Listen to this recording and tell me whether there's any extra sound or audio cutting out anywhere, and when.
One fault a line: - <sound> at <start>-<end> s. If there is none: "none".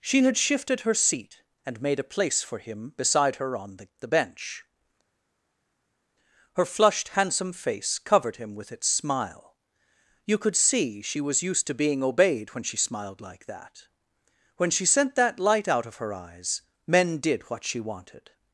none